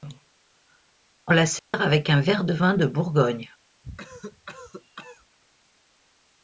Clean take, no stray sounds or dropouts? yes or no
no